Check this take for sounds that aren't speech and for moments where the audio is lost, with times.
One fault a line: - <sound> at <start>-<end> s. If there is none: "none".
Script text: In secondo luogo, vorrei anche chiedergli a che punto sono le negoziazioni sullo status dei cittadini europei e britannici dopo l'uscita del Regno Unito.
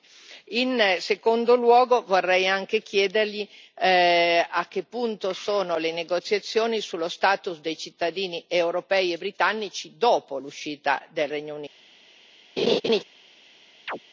- laugh at 12.6-13.0 s
- chirp at 13.9-14.0 s